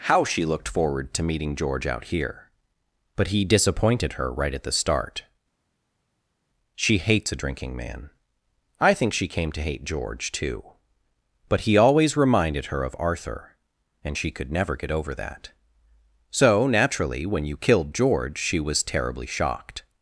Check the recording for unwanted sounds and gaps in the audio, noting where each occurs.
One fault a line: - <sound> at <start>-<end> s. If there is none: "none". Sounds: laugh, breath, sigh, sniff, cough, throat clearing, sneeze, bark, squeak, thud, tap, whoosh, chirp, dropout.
none